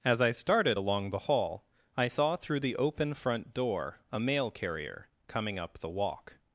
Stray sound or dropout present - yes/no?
no